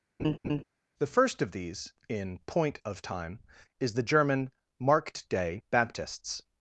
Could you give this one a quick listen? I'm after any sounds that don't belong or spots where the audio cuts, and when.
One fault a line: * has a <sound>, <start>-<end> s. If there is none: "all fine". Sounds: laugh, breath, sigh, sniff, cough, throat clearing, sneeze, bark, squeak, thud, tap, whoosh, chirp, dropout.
* has a laugh, 0.2-0.6 s